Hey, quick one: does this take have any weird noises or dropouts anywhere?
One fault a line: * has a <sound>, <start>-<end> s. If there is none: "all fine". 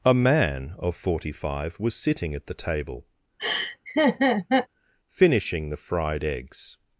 * has a laugh, 3.4-4.7 s